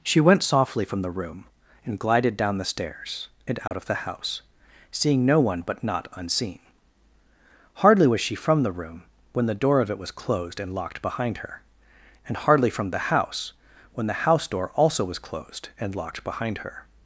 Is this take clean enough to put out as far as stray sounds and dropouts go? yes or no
no